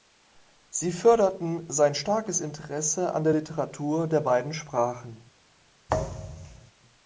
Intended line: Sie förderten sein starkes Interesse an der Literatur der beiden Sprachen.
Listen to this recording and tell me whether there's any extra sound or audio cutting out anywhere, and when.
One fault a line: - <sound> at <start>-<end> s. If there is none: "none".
- thud at 5.9-6.7 s